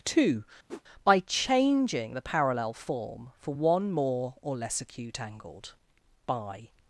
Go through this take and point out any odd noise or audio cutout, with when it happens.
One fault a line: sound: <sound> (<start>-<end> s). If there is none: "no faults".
sound: whoosh (0.7-0.8 s)